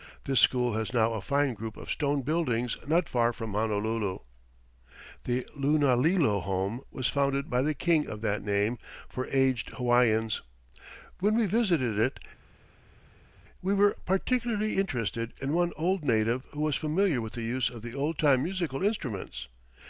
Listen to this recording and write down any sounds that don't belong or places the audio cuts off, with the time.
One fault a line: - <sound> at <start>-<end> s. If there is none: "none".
none